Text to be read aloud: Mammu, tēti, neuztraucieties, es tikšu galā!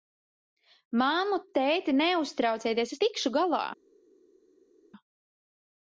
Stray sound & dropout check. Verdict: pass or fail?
pass